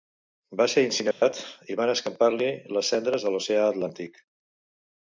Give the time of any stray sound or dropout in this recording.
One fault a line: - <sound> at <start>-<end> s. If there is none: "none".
- dropout at 1.1-1.2 s